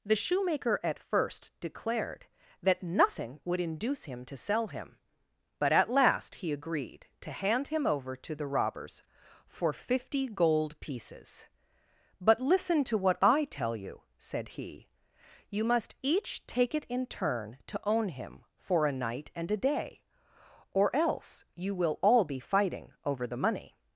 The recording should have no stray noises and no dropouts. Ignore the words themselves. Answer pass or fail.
pass